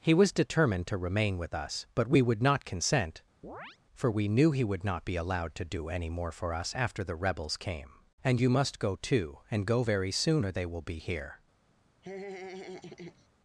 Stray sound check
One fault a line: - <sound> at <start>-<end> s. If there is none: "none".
- chirp at 3.4-3.8 s
- laugh at 12.0-13.3 s